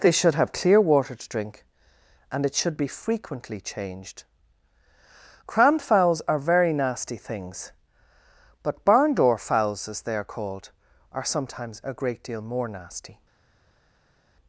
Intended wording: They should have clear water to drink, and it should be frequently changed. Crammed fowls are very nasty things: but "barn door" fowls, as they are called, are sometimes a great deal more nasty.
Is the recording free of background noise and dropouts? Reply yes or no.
yes